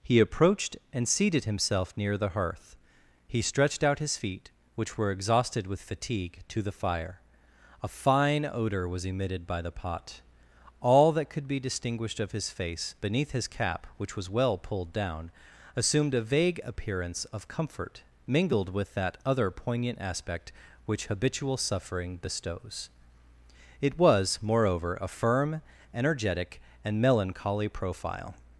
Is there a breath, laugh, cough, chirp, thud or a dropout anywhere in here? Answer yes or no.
no